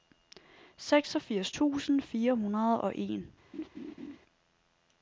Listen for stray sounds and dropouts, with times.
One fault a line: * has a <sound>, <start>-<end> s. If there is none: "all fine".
* has a laugh, 3.5-4.2 s